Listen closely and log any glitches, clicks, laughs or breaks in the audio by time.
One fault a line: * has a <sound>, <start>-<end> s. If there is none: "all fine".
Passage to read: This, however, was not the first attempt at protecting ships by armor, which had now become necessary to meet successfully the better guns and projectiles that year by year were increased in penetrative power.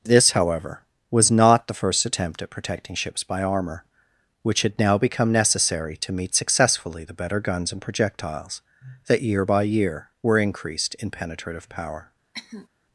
* has a cough, 12.3-12.7 s